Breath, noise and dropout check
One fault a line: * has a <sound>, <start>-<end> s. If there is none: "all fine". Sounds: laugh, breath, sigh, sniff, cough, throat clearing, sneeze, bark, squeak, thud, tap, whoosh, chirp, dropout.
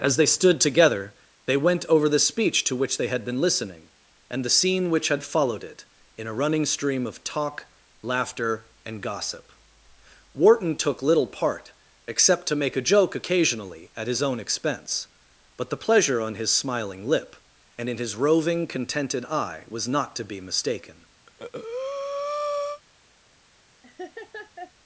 * has a breath, 21.3-22.8 s
* has a laugh, 23.8-24.7 s